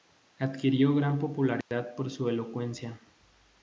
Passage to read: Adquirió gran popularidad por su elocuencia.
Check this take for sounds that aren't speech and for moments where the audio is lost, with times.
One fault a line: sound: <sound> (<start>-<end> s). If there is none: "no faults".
sound: dropout (1.6-1.7 s)